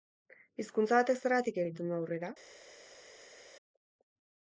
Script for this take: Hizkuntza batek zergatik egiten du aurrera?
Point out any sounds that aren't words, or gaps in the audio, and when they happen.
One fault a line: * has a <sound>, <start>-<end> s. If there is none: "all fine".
all fine